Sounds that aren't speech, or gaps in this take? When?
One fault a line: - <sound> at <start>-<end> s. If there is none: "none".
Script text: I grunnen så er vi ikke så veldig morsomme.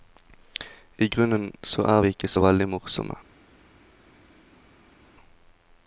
none